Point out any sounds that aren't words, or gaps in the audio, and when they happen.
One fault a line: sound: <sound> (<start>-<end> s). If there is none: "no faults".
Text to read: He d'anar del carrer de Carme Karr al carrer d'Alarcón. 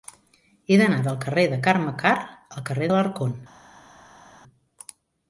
no faults